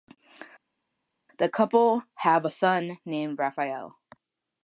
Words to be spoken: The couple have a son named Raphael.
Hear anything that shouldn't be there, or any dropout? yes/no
no